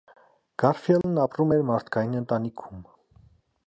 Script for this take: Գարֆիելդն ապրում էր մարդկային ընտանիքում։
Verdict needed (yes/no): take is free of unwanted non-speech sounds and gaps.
no